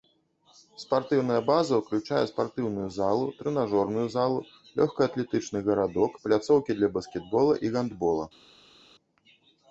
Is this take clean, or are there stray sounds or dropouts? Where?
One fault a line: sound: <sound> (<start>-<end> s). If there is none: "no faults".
no faults